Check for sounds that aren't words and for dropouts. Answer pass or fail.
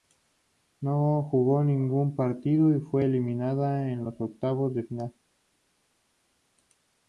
pass